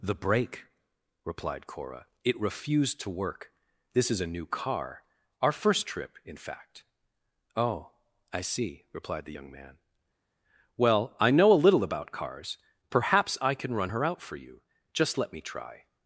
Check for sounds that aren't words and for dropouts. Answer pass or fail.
pass